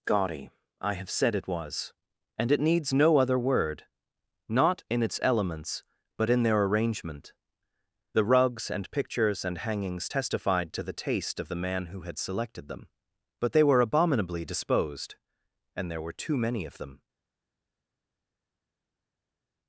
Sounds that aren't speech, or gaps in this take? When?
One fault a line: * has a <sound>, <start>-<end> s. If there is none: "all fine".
all fine